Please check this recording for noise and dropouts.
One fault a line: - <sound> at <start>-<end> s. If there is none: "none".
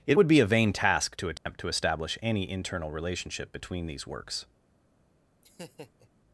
- dropout at 1.4-1.5 s
- laugh at 5.4-6.1 s